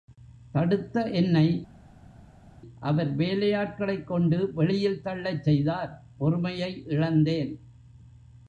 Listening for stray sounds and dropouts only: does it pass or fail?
pass